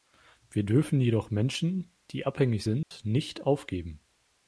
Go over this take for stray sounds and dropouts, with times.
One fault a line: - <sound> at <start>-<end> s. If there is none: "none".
- dropout at 2.8-2.9 s